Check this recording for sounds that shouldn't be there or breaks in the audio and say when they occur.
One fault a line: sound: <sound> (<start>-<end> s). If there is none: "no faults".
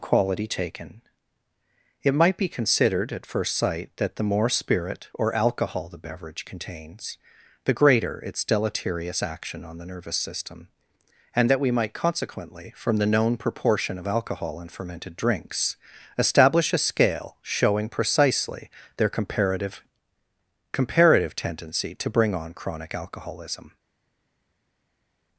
no faults